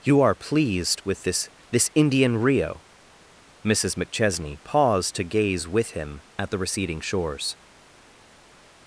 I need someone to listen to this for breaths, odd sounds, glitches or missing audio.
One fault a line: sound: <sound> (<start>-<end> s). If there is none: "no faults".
no faults